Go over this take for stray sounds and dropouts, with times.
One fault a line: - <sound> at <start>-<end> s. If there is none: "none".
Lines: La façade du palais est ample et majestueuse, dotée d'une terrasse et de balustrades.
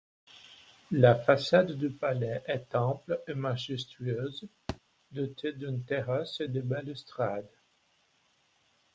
- thud at 4.7-4.8 s